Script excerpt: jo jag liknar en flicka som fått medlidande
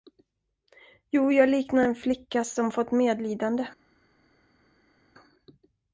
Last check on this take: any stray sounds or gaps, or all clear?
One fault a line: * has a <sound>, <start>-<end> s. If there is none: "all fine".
all fine